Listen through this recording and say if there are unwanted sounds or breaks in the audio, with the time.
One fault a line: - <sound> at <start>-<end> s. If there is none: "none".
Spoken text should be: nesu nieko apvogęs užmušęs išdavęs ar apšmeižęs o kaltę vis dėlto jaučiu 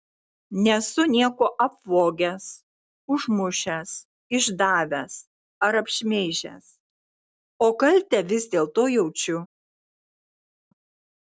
none